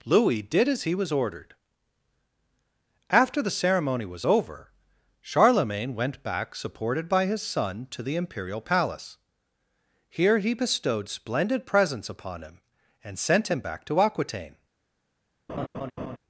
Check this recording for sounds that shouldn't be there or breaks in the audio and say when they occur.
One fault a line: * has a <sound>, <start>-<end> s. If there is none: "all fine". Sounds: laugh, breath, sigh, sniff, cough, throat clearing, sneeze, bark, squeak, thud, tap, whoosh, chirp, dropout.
* has a laugh, 15.5-16.2 s